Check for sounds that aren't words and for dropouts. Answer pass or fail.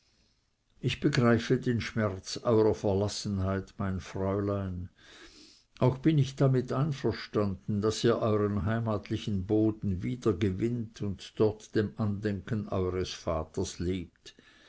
pass